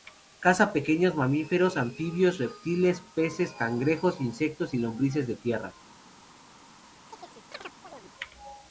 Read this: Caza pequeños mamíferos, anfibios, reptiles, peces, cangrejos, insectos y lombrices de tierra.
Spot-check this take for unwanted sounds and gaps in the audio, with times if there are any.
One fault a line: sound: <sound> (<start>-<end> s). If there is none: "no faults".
sound: chirp (7.1-8.1 s)